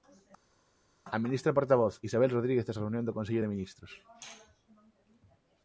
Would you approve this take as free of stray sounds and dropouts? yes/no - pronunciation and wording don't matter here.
yes